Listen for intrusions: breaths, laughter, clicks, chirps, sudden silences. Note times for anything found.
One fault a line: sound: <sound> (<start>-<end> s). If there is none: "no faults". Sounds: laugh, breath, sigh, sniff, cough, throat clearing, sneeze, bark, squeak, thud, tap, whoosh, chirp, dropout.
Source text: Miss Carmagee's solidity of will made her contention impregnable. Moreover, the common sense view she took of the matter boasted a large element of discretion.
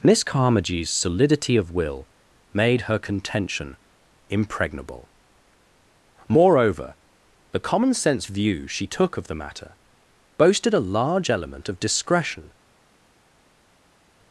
no faults